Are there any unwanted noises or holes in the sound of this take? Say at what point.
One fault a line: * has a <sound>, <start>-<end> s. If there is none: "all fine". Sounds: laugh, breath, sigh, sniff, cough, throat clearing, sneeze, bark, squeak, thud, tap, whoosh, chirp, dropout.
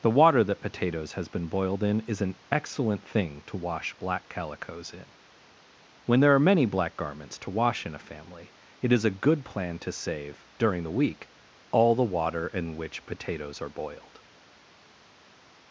all fine